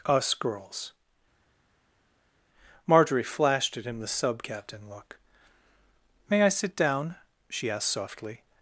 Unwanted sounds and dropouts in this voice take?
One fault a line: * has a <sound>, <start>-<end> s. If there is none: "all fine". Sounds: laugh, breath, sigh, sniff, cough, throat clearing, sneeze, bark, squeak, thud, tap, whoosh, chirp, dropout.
all fine